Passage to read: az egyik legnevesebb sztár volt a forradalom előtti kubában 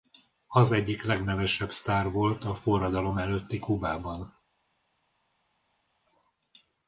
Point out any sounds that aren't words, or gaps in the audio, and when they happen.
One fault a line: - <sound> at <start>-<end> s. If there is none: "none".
none